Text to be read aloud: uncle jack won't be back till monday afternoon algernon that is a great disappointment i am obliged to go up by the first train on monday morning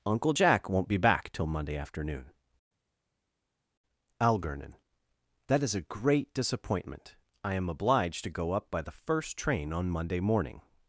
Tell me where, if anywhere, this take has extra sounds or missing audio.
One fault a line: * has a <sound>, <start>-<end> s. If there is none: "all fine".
all fine